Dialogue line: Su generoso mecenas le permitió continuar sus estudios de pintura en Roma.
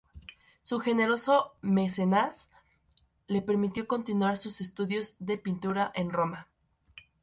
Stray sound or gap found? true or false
false